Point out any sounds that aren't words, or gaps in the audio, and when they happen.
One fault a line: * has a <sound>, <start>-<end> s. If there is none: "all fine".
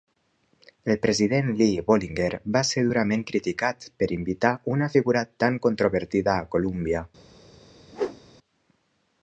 * has a whoosh, 7.9-8.2 s